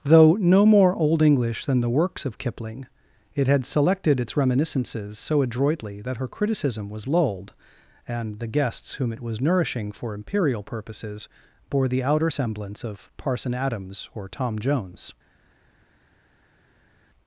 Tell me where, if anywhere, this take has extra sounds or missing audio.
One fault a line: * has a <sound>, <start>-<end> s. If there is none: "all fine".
all fine